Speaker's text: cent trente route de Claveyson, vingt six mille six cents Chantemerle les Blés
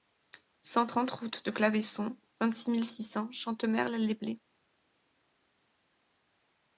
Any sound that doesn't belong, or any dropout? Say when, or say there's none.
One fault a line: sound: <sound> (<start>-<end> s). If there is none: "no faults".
no faults